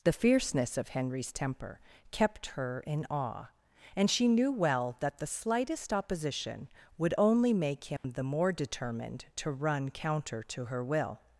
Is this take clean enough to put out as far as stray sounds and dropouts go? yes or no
no